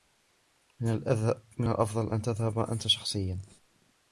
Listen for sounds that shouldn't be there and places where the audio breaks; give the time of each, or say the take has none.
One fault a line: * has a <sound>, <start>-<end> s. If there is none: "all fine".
all fine